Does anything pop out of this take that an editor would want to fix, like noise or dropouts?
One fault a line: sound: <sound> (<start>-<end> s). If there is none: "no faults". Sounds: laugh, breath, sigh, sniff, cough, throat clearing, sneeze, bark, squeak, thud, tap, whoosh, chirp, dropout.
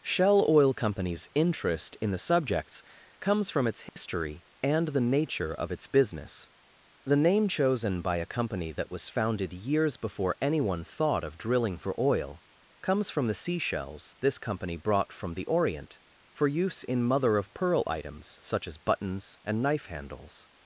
sound: dropout (3.9-4.0 s)